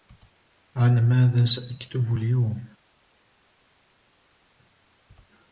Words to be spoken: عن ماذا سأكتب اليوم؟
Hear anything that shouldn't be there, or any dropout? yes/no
no